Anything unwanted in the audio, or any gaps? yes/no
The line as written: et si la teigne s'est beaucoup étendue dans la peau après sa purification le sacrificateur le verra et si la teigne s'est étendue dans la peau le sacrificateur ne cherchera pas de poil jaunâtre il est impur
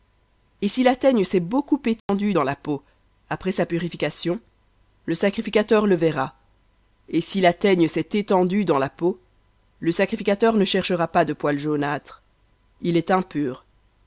yes